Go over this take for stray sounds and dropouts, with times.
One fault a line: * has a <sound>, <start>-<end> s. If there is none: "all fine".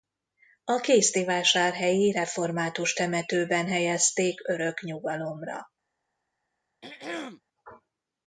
* has a throat clearing, 6.8-7.4 s